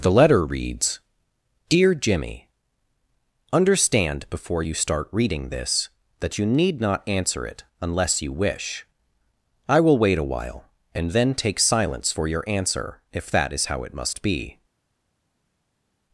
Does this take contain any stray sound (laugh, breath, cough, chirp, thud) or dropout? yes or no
no